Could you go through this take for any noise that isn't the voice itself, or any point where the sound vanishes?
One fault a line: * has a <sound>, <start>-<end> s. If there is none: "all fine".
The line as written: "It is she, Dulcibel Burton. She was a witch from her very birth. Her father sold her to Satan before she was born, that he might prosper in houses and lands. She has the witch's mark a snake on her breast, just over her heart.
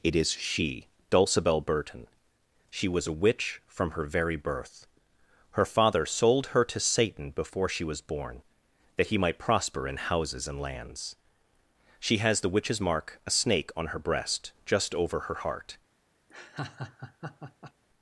* has a laugh, 16.3-17.7 s